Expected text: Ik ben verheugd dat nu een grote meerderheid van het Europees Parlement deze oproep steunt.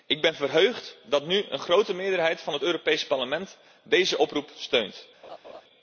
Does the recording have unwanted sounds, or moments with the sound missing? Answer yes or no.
yes